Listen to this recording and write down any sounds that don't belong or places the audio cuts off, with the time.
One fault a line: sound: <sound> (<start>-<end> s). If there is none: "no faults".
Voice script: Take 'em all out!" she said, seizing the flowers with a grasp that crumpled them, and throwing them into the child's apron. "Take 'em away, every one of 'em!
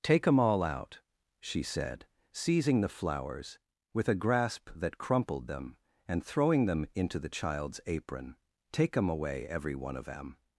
no faults